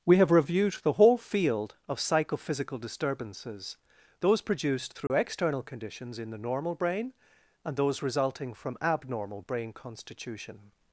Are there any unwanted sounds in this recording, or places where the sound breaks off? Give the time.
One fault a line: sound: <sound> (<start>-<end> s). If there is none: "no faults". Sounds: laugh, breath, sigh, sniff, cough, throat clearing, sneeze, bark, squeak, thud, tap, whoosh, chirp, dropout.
sound: dropout (5.1-5.1 s)